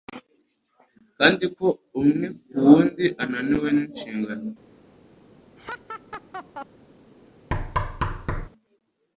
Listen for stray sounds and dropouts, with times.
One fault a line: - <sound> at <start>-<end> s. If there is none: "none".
- laugh at 5.6-6.7 s
- thud at 7.5-8.5 s